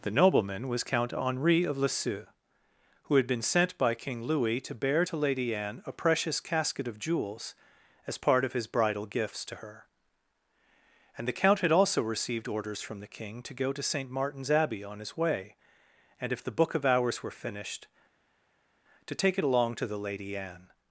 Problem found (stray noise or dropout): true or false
false